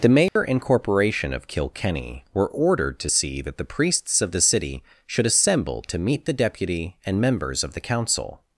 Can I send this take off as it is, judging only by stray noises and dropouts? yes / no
no